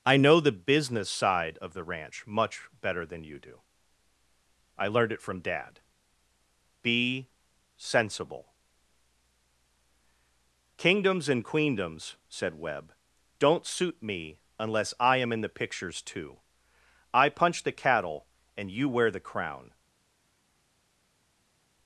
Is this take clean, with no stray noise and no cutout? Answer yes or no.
yes